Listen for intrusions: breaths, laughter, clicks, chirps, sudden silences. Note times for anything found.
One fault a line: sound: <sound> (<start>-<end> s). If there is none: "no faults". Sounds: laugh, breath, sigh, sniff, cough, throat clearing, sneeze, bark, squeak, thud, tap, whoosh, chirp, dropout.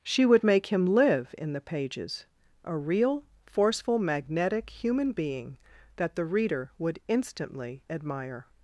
no faults